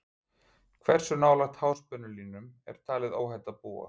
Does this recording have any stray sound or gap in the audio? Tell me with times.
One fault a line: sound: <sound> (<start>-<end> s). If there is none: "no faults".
no faults